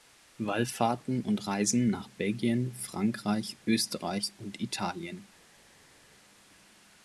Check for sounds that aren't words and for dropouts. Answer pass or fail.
pass